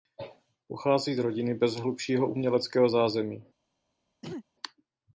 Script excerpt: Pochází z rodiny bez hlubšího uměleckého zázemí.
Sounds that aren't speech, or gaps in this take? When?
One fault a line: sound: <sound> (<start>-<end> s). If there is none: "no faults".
sound: throat clearing (4.2-4.4 s)